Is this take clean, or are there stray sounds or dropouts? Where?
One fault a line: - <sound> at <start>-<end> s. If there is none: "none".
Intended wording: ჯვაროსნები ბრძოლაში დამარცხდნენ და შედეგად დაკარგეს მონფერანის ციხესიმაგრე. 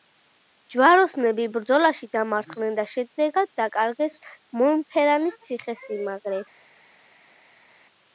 none